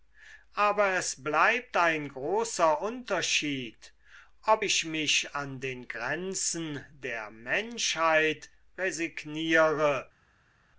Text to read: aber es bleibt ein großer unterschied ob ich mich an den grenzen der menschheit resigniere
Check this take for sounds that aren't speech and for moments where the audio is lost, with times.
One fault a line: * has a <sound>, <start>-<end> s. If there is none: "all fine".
all fine